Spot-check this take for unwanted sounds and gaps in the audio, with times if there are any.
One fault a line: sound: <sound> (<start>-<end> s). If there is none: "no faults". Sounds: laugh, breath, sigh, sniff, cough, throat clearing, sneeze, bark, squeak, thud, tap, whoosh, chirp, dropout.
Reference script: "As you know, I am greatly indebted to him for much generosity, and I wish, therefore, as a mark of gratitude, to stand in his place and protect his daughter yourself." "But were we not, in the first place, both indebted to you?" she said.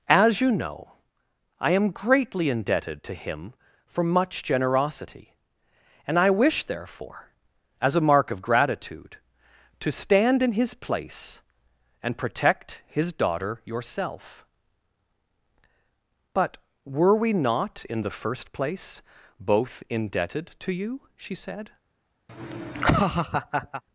sound: laugh (22.3-23.8 s)